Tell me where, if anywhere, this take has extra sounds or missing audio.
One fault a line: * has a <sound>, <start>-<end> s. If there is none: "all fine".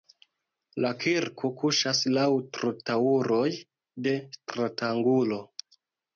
all fine